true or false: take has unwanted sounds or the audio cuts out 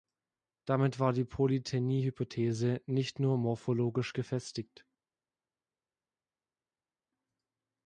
false